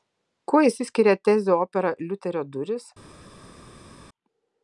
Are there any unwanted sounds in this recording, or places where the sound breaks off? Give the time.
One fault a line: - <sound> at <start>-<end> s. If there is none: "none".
none